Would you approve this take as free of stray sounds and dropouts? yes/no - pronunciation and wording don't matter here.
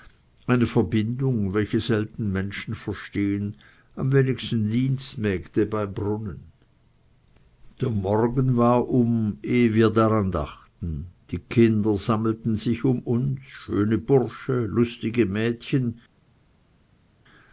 yes